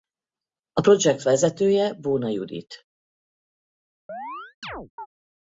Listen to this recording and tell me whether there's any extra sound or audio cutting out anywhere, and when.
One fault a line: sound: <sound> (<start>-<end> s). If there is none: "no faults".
sound: chirp (4.1-5.1 s)